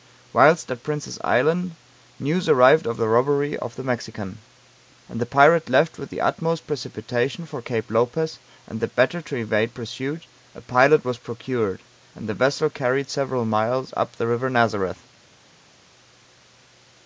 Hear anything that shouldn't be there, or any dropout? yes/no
no